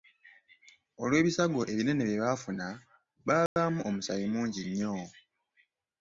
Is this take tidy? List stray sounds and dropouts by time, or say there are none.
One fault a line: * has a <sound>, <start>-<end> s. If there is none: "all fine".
* has a dropout, 3.5-3.6 s